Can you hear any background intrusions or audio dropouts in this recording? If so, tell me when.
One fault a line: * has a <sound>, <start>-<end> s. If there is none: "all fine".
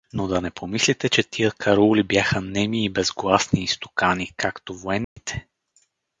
* has a dropout, 5.0-5.2 s